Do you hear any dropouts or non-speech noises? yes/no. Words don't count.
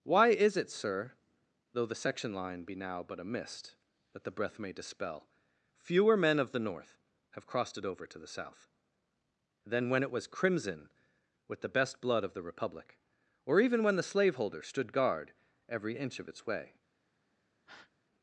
yes